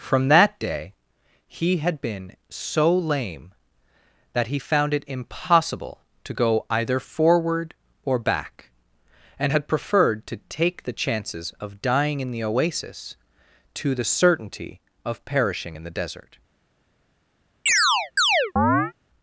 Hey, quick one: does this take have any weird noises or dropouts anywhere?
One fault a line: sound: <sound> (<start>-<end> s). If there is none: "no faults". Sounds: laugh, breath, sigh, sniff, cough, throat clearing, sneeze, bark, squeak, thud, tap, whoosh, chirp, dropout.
sound: chirp (17.7-18.9 s)